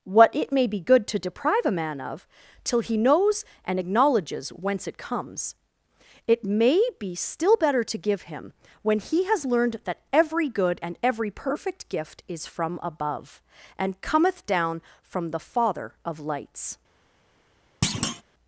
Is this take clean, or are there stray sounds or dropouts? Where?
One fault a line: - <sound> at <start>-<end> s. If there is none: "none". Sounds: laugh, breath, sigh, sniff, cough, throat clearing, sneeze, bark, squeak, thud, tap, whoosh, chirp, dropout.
- thud at 17.8-18.2 s